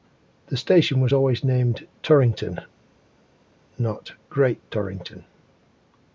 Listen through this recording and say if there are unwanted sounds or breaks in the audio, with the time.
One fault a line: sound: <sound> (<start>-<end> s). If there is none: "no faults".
no faults